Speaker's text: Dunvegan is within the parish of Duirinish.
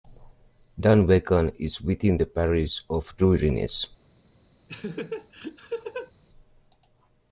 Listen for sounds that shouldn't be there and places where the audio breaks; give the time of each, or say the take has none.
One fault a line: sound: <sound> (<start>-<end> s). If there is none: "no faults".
sound: laugh (4.7-6.1 s)